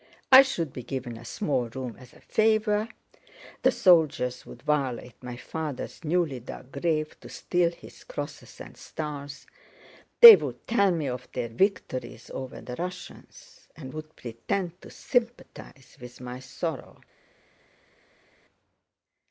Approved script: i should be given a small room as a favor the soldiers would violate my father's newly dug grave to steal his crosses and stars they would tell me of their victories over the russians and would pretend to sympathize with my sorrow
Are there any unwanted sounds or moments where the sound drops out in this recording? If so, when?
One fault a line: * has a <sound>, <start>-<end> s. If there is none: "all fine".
all fine